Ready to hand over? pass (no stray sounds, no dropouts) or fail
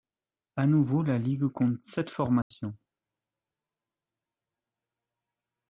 fail